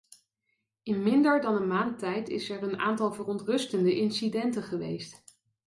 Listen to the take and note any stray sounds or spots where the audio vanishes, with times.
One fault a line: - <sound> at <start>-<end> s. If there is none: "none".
none